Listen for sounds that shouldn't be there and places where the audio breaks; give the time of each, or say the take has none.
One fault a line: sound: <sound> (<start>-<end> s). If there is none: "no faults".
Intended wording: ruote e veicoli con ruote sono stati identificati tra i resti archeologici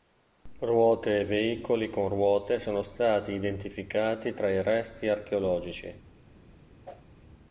sound: whoosh (6.8-7.0 s)